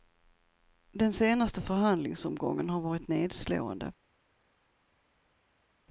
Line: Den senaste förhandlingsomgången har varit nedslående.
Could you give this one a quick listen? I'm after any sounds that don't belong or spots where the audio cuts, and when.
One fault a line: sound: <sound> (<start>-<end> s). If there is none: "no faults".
no faults